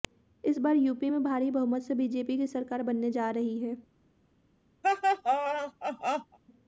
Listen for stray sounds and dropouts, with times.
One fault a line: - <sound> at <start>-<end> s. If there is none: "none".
- laugh at 4.8-6.4 s